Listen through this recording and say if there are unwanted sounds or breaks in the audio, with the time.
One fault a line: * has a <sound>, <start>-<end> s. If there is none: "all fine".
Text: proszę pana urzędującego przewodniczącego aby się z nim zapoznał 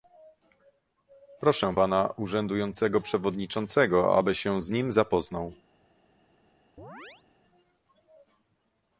* has a chirp, 6.8-7.2 s